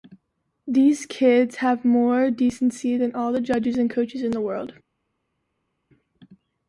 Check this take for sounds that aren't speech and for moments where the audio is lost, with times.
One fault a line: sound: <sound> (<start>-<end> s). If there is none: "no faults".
no faults